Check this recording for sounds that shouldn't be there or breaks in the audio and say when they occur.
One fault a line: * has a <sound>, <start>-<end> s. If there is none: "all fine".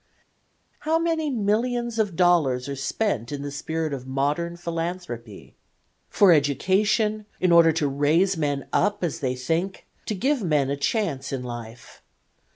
all fine